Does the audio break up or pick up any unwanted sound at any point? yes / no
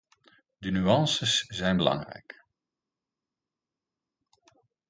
no